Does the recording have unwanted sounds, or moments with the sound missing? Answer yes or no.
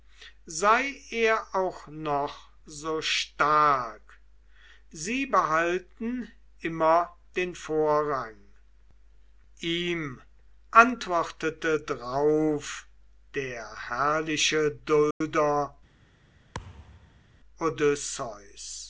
yes